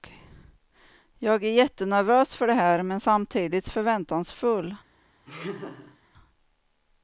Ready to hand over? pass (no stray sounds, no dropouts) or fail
fail